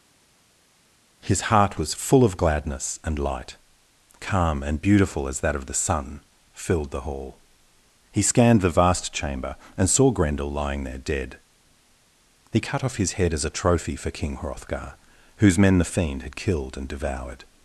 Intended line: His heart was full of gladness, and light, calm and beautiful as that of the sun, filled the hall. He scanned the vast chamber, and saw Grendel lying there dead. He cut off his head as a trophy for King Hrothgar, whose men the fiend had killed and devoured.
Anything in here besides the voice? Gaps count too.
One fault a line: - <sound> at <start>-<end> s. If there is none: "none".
none